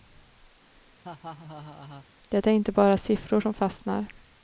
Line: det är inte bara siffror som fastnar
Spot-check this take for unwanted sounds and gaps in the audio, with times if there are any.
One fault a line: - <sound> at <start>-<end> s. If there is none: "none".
- laugh at 1.0-2.1 s